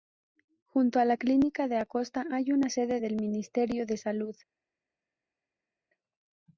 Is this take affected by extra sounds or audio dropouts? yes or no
no